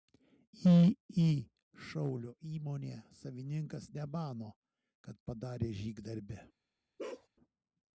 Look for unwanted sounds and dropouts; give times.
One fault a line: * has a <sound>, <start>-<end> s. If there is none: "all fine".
* has a bark, 7.0-7.3 s